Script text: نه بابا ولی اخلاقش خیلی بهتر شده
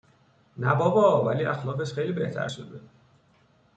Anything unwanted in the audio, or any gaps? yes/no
no